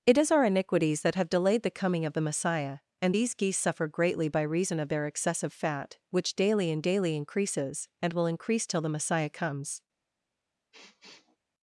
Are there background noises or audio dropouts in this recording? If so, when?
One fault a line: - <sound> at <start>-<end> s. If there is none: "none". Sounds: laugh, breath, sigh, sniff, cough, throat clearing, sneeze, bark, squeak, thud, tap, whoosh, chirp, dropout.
- sniff at 10.7-11.4 s